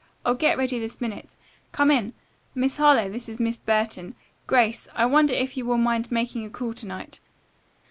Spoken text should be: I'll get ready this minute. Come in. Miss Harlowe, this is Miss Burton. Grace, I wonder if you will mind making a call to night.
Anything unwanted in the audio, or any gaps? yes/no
no